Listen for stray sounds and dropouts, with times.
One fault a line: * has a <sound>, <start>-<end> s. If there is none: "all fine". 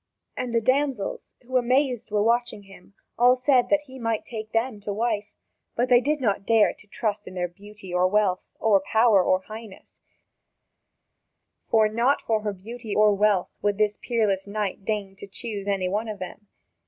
all fine